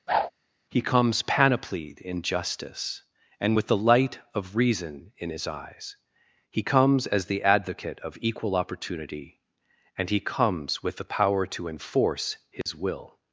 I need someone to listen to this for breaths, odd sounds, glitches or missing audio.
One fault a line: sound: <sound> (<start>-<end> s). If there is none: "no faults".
sound: whoosh (0.1-0.3 s)
sound: dropout (12.6-12.7 s)